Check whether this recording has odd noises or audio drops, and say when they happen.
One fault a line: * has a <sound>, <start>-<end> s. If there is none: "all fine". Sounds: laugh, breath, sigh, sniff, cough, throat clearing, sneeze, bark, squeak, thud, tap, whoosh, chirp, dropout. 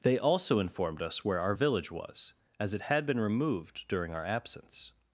all fine